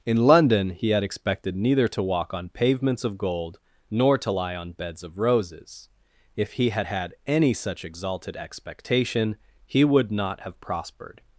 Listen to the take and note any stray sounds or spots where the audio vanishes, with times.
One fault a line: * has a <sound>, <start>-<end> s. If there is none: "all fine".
all fine